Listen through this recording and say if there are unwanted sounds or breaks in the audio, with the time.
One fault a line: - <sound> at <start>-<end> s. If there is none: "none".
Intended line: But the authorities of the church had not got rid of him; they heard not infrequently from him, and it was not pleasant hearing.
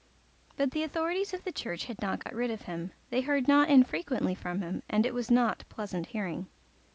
- dropout at 2.2-2.3 s